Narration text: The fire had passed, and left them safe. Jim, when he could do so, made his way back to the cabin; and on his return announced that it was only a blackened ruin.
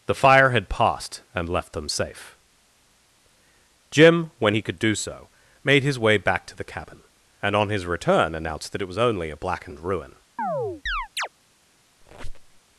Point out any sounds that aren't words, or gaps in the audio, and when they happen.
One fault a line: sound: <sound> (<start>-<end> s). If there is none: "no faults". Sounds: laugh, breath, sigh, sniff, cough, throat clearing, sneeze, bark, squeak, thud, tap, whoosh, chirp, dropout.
sound: chirp (10.4-11.3 s)
sound: squeak (12.0-12.6 s)